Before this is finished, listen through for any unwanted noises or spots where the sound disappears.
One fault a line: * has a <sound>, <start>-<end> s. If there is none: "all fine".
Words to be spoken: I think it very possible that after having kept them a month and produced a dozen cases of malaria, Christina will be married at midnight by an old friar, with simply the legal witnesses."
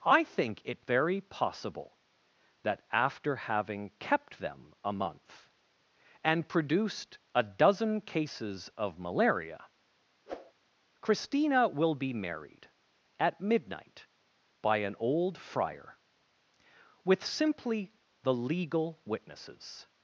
* has a whoosh, 10.3-10.5 s